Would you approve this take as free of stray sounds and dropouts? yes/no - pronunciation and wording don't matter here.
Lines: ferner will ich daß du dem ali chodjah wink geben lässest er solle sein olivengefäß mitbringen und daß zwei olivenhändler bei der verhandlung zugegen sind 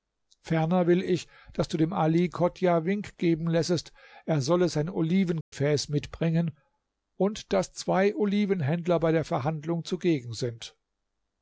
no